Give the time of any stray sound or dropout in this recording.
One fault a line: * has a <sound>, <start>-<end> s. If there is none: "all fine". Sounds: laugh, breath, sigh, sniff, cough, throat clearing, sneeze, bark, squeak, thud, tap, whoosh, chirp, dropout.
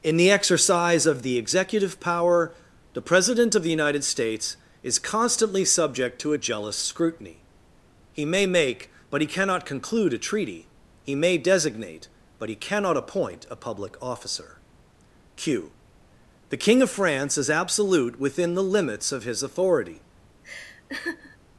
* has a laugh, 20.4-21.4 s